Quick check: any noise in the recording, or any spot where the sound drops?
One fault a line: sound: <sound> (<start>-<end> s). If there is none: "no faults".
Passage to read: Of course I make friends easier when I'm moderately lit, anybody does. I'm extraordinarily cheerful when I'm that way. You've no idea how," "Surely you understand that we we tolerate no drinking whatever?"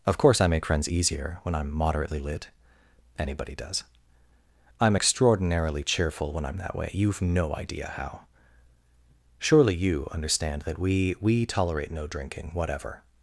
no faults